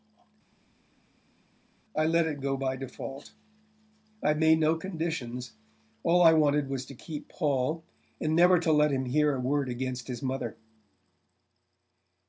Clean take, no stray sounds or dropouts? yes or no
yes